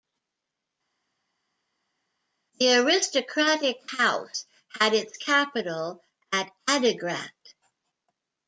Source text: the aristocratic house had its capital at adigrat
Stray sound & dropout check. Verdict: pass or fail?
pass